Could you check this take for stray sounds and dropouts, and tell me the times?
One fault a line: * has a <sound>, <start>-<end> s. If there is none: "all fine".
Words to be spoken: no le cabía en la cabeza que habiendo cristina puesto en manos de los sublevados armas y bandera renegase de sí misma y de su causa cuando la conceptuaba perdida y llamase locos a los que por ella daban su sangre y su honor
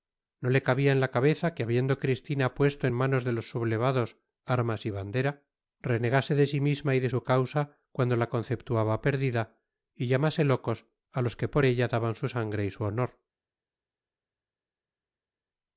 all fine